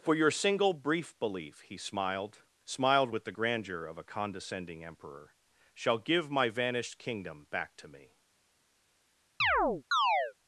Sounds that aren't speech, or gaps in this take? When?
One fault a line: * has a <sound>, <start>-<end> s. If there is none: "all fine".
* has a chirp, 9.4-10.3 s